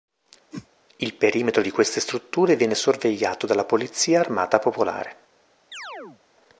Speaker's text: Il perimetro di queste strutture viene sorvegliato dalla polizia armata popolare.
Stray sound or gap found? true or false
true